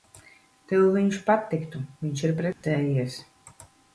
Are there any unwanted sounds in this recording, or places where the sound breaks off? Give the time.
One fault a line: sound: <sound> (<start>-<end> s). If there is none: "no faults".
sound: dropout (2.5-2.6 s)